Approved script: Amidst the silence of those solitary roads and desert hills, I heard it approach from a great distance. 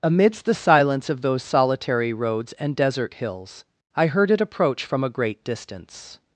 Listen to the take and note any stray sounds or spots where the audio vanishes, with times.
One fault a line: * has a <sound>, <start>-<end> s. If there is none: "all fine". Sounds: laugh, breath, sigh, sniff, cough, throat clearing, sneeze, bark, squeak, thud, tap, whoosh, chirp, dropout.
all fine